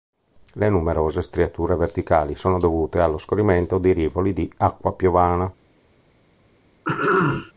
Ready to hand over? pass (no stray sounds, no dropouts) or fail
fail